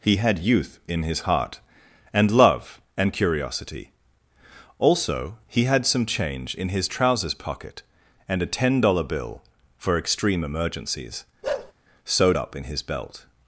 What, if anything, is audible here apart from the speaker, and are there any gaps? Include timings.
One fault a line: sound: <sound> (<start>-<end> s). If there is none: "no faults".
sound: bark (11.4-11.7 s)